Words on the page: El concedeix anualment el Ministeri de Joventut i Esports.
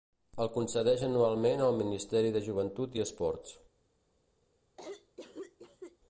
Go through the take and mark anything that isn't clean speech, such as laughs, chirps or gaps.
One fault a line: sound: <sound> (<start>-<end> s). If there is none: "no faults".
sound: cough (4.8-6.0 s)